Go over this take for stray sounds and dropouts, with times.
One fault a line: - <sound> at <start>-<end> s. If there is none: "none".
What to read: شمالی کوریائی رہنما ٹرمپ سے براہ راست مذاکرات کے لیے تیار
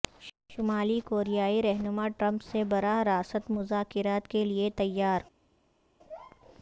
none